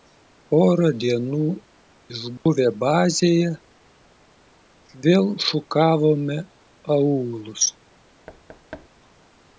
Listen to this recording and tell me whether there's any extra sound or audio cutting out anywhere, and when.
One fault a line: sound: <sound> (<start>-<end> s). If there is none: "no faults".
sound: dropout (2.4-2.5 s)
sound: thud (8.3-8.9 s)